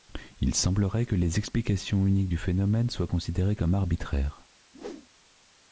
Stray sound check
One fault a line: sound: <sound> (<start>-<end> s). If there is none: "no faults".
sound: whoosh (4.7-5.1 s)